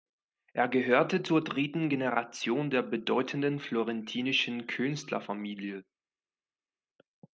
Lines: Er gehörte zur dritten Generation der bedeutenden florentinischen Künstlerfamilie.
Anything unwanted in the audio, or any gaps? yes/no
no